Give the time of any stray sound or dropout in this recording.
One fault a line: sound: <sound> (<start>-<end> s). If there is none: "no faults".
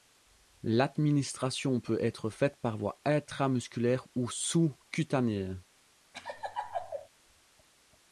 sound: laugh (6.1-7.1 s)